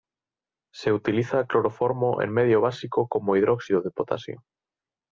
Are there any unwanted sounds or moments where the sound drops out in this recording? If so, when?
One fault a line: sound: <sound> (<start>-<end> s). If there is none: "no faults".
no faults